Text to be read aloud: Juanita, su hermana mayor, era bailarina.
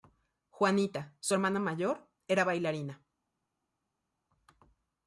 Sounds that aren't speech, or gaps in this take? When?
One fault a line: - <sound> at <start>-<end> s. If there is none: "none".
none